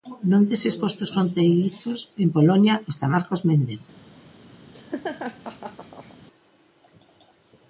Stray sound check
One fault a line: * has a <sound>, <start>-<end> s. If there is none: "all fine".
* has a laugh, 4.7-6.2 s